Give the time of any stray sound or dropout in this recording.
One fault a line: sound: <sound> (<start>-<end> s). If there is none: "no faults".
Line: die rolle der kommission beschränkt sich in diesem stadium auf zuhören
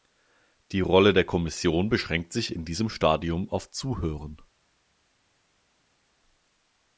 no faults